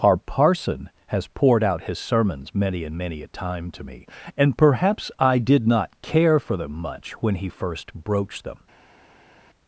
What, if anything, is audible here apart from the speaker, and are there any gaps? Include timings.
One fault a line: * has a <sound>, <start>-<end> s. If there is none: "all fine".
all fine